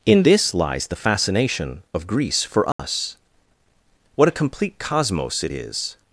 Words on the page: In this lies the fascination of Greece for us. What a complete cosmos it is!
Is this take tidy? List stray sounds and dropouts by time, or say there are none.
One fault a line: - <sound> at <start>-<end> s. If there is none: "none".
- dropout at 2.7-2.8 s